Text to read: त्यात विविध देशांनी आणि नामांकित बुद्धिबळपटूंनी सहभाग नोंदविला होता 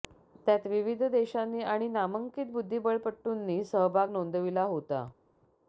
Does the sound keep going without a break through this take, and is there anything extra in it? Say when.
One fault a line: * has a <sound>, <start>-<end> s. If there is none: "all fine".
all fine